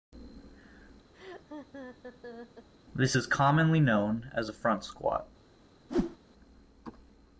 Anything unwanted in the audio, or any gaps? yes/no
yes